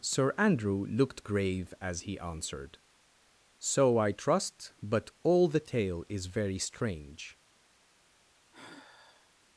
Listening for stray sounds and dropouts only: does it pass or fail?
fail